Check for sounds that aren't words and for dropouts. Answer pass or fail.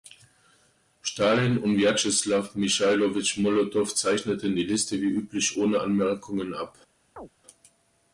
fail